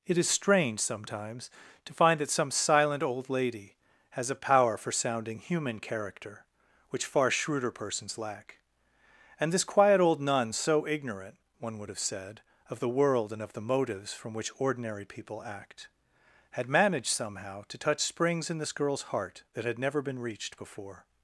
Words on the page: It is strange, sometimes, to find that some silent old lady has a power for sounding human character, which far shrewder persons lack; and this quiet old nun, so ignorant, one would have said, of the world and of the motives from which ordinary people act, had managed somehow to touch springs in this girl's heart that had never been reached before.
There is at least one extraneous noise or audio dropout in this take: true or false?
false